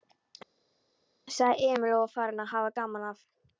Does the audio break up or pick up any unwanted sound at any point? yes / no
no